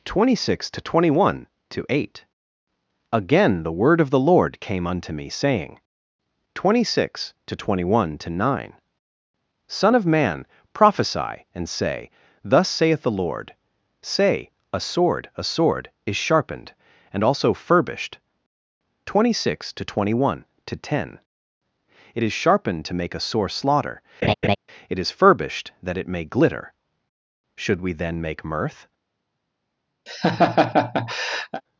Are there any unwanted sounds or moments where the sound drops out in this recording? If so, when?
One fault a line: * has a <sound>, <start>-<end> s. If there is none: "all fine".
* has a laugh, 24.2-24.6 s
* has a laugh, 30.1-31.6 s